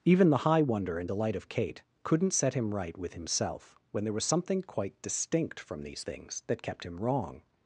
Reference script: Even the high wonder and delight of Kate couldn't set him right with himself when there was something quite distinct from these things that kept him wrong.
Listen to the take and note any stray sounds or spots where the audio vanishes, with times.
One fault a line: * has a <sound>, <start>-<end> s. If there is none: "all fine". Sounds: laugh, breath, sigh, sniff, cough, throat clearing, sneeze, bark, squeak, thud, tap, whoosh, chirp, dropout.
all fine